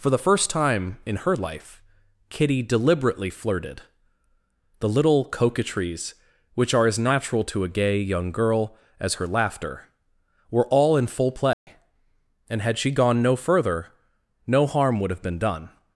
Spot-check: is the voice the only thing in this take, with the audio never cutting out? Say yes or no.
no